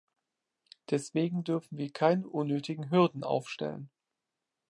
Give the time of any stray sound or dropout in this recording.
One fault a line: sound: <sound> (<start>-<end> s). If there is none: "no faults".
no faults